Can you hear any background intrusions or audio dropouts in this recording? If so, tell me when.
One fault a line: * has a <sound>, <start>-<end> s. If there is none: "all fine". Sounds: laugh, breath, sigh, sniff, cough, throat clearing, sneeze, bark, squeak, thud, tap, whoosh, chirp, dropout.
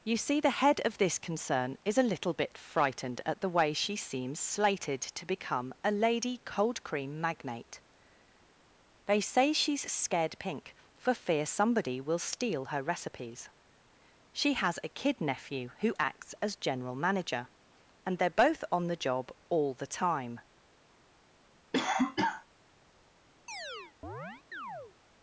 * has a cough, 21.7-22.5 s
* has a chirp, 23.5-24.9 s